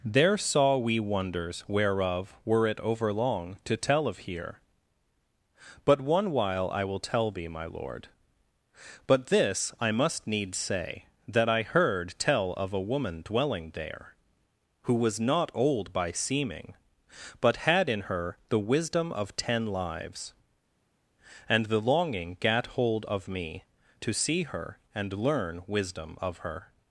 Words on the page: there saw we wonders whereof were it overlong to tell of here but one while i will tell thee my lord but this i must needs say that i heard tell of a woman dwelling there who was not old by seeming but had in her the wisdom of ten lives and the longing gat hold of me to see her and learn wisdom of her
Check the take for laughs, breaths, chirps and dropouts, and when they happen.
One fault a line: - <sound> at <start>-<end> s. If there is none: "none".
none